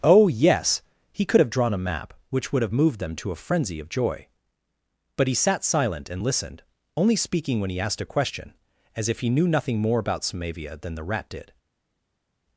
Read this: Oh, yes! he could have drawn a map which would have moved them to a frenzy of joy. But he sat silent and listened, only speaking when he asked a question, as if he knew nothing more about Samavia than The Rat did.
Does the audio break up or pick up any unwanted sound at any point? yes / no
no